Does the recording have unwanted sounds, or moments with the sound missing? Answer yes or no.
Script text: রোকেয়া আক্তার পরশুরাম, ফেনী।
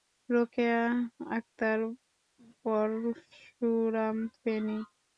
no